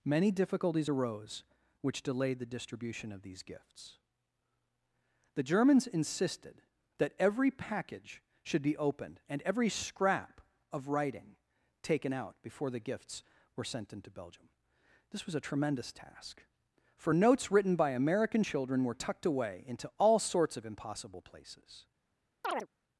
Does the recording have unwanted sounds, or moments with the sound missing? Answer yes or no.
yes